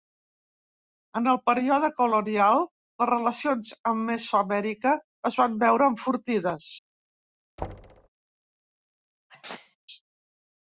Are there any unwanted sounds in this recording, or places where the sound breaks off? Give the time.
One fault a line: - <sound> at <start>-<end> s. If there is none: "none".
- thud at 7.6-8.1 s
- sneeze at 9.3-9.8 s